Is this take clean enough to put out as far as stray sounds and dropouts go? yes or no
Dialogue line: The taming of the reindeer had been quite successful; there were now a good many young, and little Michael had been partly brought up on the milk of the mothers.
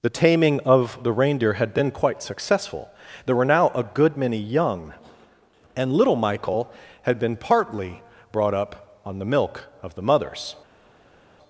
yes